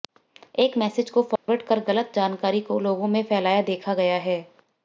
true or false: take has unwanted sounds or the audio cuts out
true